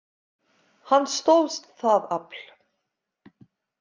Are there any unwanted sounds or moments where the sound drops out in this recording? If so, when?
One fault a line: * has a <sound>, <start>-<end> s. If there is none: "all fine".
all fine